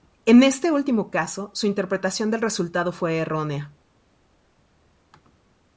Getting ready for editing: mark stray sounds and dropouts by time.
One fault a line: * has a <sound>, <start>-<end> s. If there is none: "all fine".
all fine